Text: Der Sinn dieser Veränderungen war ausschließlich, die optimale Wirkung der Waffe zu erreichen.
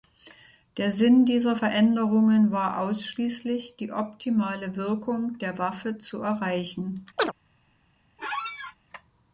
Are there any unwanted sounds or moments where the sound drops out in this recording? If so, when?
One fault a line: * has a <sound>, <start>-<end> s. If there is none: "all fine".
* has a chirp, 7.2-7.3 s
* has a squeak, 8.2-8.8 s